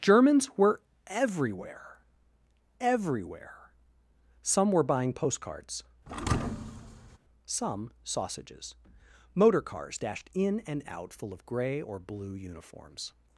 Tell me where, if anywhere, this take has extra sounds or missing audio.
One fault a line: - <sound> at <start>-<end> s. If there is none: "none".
- thud at 6.1-7.2 s